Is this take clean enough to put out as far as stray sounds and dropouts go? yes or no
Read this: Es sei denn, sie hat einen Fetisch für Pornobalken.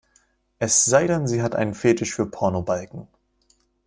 yes